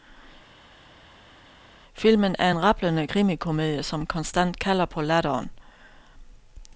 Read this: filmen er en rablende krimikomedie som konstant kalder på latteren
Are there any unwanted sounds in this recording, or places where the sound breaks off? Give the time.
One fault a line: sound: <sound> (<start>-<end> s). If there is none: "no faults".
no faults